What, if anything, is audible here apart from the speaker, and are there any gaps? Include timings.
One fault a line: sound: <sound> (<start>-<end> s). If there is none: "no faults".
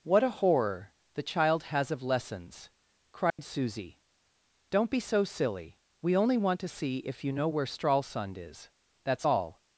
sound: dropout (3.3-3.4 s)